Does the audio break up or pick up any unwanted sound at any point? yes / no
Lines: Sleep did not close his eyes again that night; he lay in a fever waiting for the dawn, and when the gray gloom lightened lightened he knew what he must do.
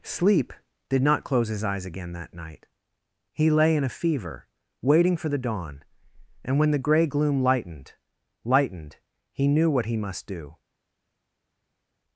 no